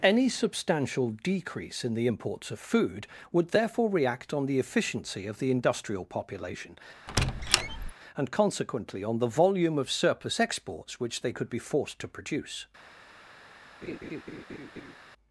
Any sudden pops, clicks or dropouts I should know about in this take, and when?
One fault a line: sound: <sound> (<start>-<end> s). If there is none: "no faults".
sound: squeak (7.1-7.9 s)
sound: laugh (13.8-15.0 s)